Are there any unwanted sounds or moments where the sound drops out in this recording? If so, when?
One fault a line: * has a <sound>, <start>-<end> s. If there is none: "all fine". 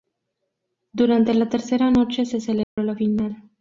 * has a dropout, 2.6-2.8 s